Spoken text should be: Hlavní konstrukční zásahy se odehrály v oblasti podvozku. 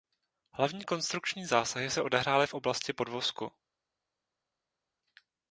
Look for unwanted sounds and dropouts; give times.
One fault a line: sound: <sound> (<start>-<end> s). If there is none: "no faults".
no faults